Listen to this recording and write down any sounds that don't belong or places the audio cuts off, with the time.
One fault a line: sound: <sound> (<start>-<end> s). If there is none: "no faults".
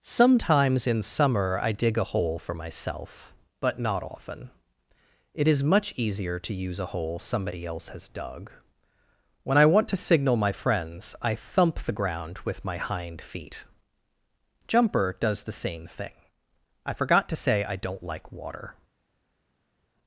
no faults